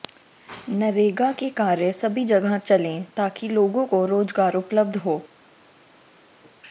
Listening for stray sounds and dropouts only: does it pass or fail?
pass